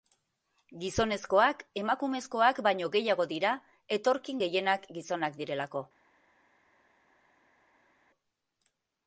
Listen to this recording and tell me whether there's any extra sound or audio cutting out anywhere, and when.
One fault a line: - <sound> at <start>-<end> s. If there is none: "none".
none